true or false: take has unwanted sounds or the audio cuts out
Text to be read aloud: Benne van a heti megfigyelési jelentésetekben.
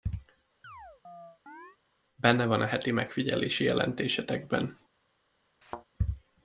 true